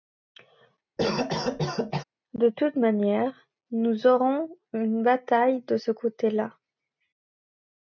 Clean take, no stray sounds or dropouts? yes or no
no